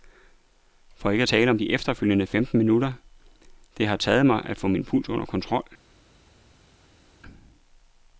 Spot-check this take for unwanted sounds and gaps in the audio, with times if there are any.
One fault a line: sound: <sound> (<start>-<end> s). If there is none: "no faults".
no faults